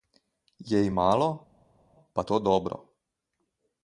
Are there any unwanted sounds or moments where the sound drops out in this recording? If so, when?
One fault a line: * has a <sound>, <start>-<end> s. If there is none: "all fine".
all fine